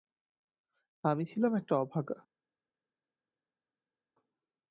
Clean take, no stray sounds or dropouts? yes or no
yes